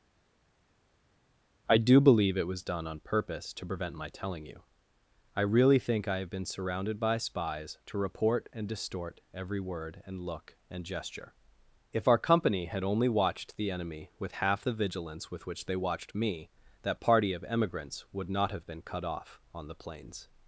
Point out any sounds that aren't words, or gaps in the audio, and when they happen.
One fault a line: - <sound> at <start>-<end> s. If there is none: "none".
none